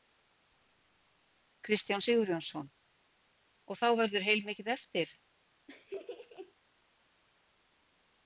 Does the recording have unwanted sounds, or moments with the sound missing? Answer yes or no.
yes